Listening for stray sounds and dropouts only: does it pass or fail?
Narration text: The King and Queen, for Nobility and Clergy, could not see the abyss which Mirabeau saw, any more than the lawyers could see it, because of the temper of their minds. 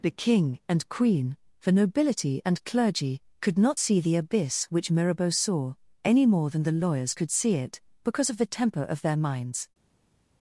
pass